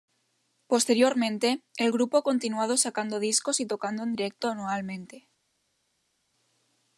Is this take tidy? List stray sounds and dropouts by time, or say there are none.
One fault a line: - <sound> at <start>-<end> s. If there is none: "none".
none